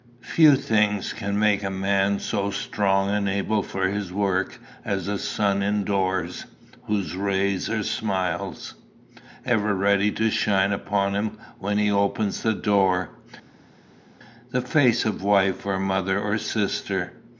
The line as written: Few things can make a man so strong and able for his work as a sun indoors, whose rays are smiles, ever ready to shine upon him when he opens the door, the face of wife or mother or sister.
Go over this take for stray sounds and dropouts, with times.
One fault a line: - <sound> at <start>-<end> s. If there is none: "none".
none